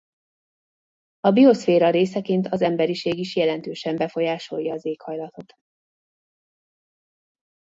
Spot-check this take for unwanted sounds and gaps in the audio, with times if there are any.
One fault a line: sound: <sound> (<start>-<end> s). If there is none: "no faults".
no faults